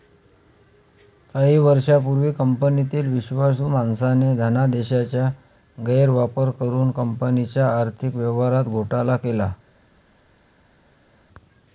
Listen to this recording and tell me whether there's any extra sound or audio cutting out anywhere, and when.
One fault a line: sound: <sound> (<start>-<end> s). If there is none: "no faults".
no faults